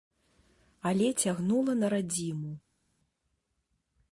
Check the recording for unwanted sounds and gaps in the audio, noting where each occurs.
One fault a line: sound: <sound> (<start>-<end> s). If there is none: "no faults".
no faults